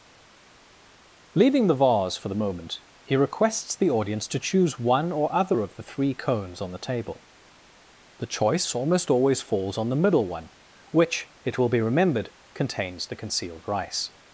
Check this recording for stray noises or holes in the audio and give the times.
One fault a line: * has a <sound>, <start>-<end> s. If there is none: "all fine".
all fine